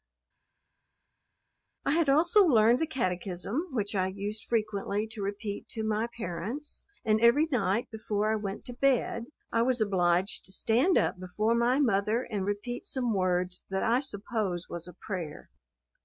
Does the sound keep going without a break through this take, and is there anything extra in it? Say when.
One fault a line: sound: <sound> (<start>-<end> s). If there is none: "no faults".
no faults